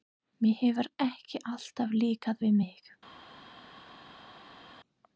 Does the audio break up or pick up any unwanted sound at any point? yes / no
no